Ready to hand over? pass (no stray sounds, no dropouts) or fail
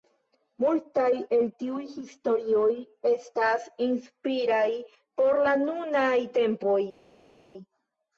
pass